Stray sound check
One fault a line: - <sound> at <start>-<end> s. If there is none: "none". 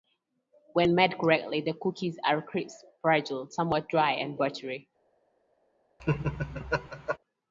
- laugh at 6.0-7.2 s